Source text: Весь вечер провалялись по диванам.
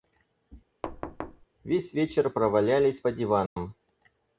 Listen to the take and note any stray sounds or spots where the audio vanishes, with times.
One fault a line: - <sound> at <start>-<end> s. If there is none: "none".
- thud at 0.8-1.5 s
- dropout at 3.5-3.6 s